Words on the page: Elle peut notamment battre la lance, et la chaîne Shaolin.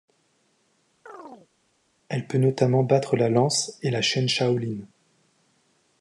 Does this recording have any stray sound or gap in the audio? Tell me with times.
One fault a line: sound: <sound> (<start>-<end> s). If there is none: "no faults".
sound: chirp (1.1-1.5 s)